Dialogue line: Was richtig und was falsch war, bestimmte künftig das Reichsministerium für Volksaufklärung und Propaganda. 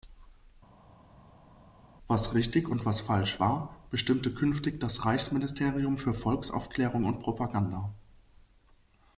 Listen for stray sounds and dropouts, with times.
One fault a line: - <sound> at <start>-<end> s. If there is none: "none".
none